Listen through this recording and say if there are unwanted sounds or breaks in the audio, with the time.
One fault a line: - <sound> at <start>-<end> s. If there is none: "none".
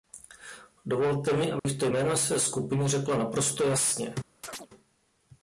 - dropout at 1.6-1.6 s
- chirp at 4.4-4.7 s